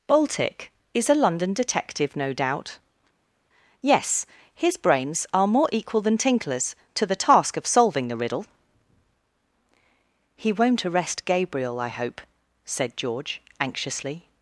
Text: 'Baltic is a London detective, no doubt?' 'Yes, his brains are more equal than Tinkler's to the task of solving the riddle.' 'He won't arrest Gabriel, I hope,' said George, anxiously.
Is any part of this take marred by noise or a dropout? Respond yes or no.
no